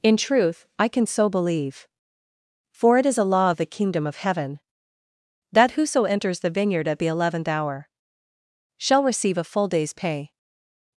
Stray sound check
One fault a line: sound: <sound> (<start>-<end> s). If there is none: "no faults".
no faults